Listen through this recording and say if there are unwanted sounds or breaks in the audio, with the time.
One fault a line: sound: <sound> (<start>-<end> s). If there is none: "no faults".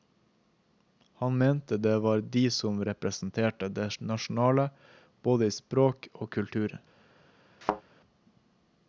sound: thud (7.6-7.8 s)